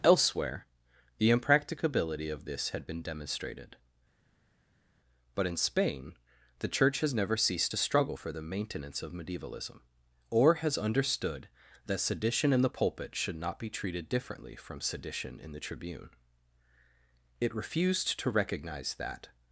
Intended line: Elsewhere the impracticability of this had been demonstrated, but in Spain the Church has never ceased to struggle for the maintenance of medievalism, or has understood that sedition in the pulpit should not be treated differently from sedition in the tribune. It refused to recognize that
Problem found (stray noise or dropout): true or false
false